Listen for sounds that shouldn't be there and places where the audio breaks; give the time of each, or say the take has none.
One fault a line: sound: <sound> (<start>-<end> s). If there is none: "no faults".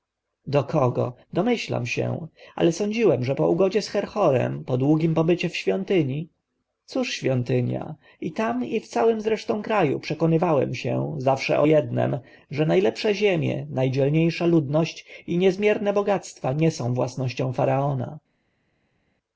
no faults